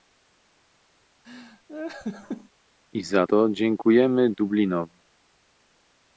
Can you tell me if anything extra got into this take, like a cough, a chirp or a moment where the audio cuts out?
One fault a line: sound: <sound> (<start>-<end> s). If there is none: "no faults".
sound: laugh (1.2-2.5 s)